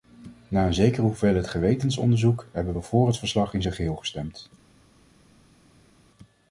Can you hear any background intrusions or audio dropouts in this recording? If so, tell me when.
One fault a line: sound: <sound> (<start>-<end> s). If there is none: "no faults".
no faults